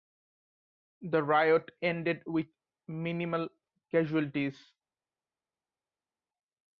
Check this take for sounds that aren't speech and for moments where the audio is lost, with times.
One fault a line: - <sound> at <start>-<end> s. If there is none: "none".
none